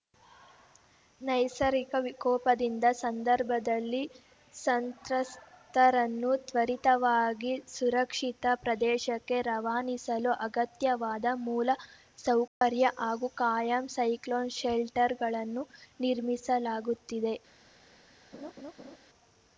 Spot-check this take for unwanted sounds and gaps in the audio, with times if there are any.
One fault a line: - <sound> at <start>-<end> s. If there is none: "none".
- dropout at 12.5-12.6 s
- laugh at 18.3-19.0 s